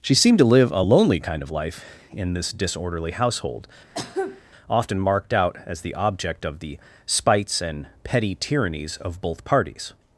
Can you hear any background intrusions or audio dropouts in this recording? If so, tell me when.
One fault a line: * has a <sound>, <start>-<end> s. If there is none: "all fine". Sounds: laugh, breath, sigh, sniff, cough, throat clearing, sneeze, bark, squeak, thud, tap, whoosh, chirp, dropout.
* has a cough, 3.9-4.4 s